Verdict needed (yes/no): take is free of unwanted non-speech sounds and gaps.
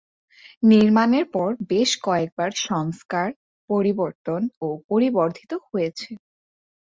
yes